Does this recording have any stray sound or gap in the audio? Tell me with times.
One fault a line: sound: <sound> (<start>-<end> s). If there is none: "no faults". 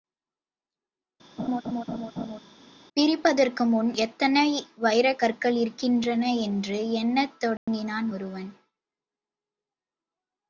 sound: laugh (1.4-2.4 s)
sound: dropout (7.6-7.7 s)